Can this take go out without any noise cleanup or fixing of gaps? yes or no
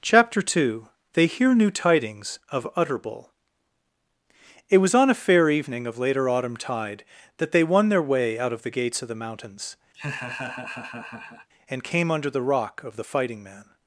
no